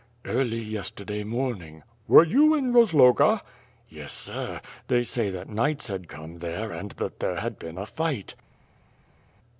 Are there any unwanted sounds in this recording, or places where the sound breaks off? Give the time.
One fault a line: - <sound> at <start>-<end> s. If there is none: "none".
none